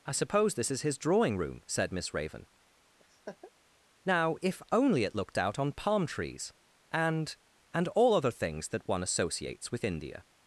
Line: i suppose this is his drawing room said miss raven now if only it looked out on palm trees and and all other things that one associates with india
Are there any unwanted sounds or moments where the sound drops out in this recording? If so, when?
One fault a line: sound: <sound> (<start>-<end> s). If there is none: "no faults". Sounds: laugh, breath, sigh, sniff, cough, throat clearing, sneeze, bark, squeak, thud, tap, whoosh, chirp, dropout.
sound: laugh (3.0-3.5 s)